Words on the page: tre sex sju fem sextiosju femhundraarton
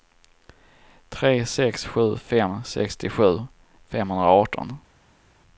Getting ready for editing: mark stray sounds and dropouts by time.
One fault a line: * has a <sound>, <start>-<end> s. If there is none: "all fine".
all fine